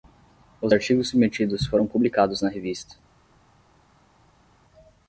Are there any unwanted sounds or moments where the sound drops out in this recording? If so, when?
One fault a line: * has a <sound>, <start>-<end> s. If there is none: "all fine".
all fine